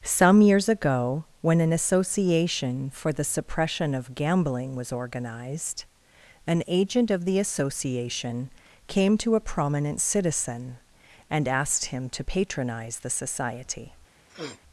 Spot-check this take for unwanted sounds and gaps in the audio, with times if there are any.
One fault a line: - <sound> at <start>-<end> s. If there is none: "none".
- sniff at 14.3-14.6 s